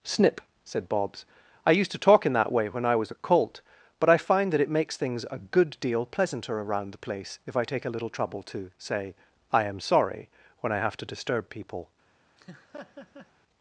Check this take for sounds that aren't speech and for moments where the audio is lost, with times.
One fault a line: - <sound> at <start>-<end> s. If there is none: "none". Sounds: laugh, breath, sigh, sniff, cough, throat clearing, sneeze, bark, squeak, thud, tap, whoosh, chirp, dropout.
- laugh at 12.4-13.3 s